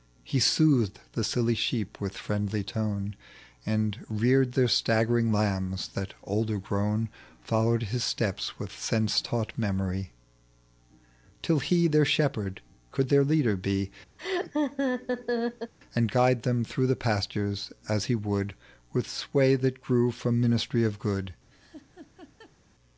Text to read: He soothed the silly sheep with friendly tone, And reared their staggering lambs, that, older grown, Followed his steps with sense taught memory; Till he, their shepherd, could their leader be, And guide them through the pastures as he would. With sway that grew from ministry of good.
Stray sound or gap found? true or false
true